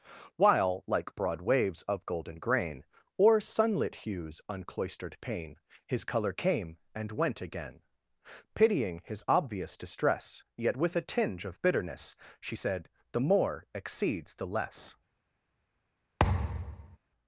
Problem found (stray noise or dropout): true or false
true